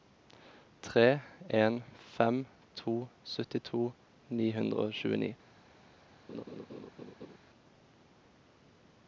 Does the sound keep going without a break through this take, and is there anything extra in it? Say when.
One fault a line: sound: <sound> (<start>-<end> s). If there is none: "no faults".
sound: laugh (6.3-7.4 s)